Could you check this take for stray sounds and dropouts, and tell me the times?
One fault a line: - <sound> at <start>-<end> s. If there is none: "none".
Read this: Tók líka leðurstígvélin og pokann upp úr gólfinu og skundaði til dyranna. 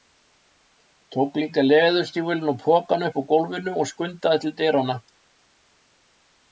none